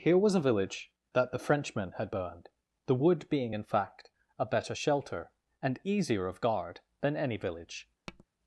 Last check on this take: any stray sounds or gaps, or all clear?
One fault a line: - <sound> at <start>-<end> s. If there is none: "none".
- tap at 8.1-8.3 s